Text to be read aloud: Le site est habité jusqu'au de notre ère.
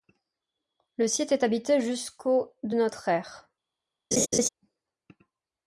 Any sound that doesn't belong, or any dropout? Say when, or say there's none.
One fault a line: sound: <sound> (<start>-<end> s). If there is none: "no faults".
sound: laugh (4.1-4.5 s)